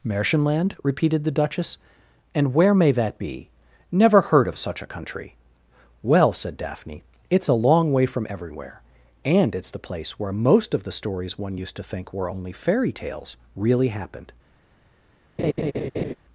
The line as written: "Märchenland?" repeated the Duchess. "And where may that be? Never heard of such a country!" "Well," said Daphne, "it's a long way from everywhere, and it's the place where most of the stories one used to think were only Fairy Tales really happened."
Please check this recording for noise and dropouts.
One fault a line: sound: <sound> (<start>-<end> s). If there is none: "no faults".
sound: laugh (15.4-16.1 s)